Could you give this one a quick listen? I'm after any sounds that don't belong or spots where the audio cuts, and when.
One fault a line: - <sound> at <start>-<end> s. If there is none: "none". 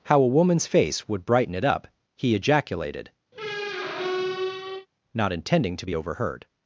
- squeak at 3.3-4.9 s